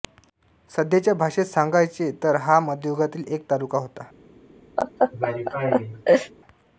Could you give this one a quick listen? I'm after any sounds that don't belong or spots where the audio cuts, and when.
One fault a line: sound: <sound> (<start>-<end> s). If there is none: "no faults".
sound: laugh (4.8-6.3 s)